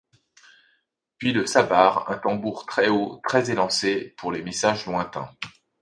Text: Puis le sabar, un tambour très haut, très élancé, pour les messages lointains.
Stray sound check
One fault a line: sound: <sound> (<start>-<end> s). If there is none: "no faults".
no faults